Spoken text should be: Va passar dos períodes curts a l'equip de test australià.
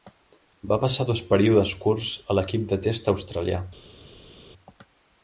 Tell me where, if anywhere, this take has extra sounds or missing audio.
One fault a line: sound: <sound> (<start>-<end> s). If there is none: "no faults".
no faults